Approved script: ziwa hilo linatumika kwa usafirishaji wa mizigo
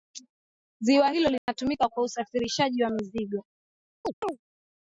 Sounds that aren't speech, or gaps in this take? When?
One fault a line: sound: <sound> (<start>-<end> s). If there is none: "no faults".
sound: dropout (1.4-1.5 s)
sound: chirp (4.0-4.4 s)